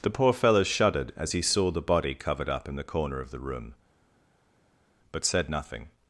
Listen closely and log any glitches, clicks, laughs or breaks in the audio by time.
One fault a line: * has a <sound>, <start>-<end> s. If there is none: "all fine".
all fine